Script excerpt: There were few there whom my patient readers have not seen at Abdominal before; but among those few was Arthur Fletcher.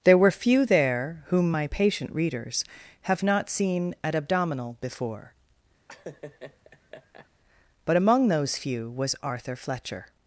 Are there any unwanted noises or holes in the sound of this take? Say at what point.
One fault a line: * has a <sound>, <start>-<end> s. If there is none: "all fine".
* has a laugh, 5.9-7.3 s